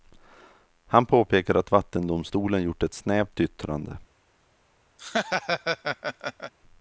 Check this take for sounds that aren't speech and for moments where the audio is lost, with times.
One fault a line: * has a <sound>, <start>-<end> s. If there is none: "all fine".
* has a laugh, 5.0-6.5 s